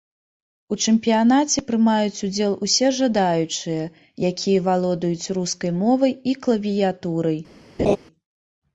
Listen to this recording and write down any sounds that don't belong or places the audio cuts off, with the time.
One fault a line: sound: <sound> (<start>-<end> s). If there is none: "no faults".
sound: laugh (7.8-8.0 s)